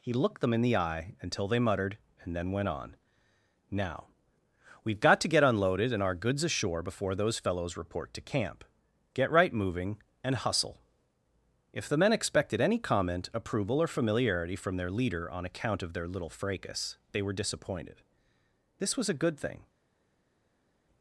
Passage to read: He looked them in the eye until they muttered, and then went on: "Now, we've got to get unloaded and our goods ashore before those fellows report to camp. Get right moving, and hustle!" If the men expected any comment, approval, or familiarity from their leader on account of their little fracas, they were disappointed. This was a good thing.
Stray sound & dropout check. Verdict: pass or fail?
pass